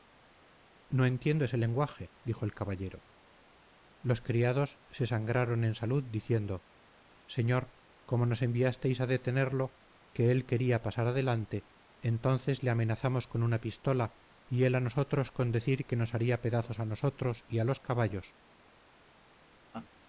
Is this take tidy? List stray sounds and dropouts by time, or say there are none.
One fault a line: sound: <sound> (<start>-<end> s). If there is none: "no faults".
sound: laugh (19.7-19.9 s)